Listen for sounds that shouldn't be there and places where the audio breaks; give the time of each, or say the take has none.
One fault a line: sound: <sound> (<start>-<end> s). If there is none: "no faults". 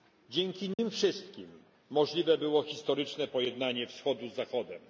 sound: dropout (0.7-0.8 s)